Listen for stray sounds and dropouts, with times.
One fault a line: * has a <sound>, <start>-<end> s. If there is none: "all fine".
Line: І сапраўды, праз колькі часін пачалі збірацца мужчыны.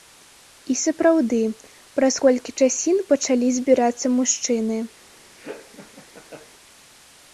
* has a laugh, 5.4-6.5 s